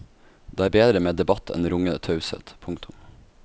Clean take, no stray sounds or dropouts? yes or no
yes